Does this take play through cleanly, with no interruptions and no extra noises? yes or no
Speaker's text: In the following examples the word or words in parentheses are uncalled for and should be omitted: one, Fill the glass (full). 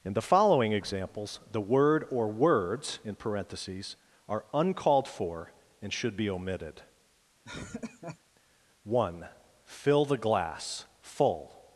no